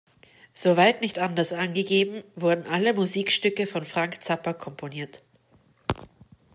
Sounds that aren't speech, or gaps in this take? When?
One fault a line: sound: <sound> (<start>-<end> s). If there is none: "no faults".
no faults